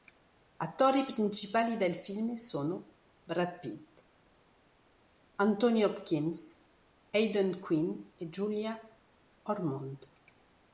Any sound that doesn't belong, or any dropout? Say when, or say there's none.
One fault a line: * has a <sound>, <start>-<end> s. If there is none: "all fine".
all fine